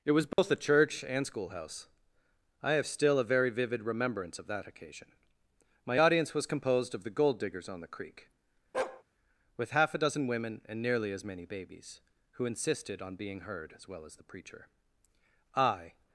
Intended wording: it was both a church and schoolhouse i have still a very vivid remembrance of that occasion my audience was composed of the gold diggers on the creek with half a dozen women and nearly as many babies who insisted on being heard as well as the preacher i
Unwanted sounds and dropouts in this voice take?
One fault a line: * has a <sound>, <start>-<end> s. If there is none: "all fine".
* has a dropout, 0.3-0.4 s
* has a bark, 8.7-9.0 s